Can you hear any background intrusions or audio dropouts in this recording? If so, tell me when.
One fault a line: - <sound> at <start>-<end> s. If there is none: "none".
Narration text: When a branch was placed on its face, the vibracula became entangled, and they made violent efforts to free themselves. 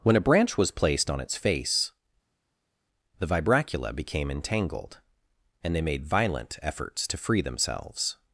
none